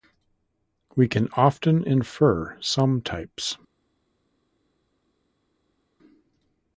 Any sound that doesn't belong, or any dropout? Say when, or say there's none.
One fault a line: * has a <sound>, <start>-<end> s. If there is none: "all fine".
all fine